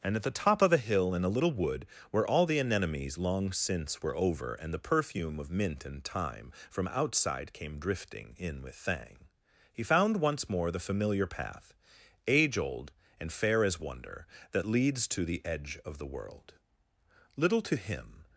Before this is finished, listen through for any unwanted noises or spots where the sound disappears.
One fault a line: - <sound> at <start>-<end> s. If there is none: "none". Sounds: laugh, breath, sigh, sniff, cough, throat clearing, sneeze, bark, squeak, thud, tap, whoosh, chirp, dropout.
none